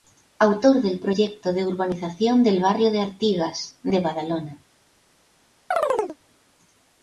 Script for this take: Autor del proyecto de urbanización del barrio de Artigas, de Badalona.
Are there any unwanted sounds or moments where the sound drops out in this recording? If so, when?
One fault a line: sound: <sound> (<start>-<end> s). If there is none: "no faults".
sound: chirp (5.7-6.2 s)